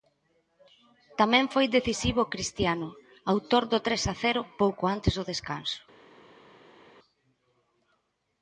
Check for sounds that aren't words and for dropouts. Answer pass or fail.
pass